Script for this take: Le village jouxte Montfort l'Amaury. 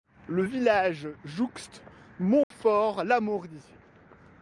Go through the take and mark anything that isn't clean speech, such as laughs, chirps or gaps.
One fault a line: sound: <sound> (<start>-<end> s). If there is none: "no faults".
sound: dropout (2.4-2.5 s)